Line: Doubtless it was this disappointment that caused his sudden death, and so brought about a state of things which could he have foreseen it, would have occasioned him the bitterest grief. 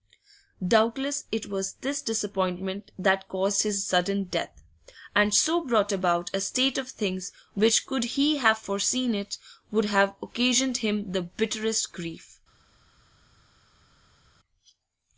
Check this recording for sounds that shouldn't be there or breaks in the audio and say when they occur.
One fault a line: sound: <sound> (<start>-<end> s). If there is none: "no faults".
no faults